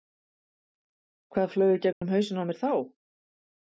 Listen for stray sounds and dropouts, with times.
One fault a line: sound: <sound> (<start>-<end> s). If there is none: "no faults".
sound: dropout (1.9-2.0 s)